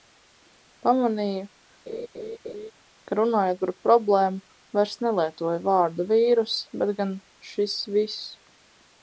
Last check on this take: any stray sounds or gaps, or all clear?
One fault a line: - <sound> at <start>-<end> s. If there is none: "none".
- laugh at 1.9-2.7 s